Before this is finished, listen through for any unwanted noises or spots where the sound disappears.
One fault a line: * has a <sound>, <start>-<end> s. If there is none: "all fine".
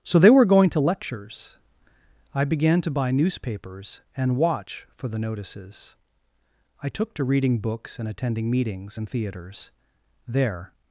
all fine